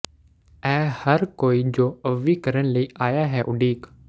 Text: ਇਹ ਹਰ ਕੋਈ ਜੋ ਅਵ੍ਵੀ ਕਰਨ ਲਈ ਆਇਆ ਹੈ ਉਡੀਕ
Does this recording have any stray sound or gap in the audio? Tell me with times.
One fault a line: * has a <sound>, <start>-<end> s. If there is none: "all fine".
all fine